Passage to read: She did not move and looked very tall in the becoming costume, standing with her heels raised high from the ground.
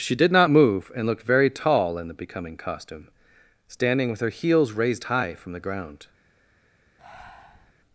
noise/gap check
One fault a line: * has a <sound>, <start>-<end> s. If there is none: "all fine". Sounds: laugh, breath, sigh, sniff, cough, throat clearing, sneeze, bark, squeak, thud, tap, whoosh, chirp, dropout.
* has a breath, 7.0-7.7 s